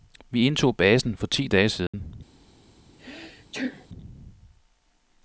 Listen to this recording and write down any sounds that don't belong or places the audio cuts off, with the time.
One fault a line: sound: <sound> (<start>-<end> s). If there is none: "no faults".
sound: dropout (1.9-1.9 s)
sound: sneeze (3.0-3.9 s)